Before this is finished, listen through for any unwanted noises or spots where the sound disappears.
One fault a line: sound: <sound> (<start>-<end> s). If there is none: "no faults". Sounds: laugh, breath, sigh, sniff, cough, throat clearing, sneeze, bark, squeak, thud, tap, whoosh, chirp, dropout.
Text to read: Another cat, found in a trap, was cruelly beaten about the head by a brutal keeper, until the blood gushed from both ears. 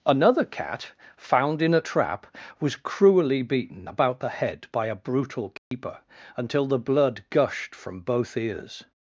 sound: dropout (5.6-5.7 s)